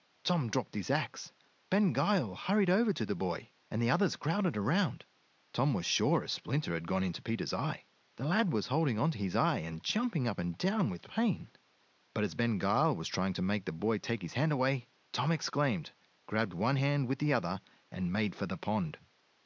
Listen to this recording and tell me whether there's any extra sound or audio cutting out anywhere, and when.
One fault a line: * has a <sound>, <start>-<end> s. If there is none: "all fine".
all fine